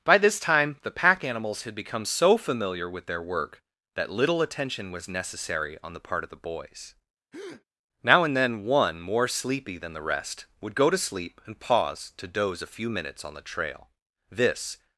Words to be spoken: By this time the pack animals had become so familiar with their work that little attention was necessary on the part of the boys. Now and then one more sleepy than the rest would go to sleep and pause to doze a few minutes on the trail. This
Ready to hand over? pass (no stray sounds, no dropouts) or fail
fail